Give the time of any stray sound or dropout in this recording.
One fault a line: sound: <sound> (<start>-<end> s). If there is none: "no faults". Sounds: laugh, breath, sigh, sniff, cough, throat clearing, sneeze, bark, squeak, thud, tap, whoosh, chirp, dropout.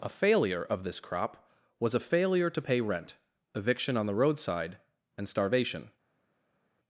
no faults